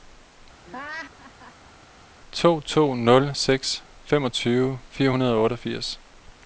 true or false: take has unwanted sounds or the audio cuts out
true